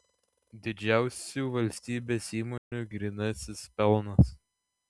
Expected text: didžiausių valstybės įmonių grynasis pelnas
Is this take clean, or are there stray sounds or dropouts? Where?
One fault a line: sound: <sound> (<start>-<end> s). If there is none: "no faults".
sound: dropout (2.6-2.7 s)